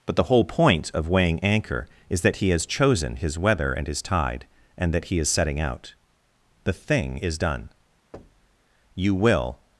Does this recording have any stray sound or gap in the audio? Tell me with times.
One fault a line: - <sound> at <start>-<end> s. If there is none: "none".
- thud at 8.1-8.6 s